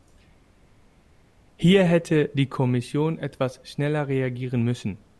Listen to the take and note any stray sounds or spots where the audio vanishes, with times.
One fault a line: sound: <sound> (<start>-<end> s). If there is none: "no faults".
no faults